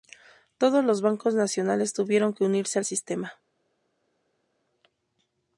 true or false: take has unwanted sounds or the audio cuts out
false